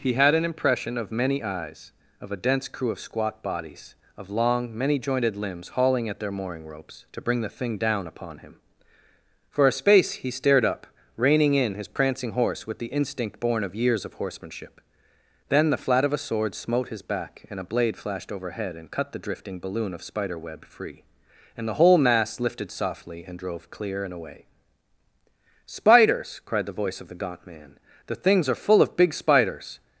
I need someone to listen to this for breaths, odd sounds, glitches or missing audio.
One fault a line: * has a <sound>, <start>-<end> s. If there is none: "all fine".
all fine